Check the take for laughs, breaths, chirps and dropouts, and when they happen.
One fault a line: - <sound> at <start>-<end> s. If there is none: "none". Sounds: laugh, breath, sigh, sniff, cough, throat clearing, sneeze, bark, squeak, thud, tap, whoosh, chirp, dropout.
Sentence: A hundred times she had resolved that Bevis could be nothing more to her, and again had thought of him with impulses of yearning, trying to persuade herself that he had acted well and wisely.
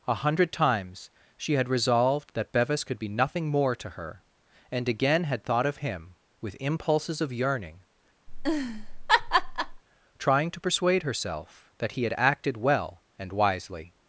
- laugh at 8.3-9.8 s